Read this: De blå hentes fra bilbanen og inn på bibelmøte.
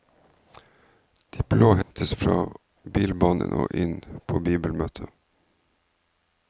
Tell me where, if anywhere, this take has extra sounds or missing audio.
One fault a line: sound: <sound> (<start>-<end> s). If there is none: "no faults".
sound: dropout (1.8-1.9 s)